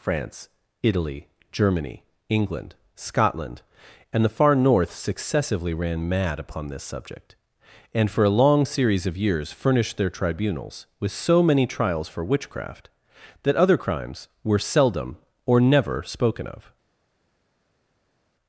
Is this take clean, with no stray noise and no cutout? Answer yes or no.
yes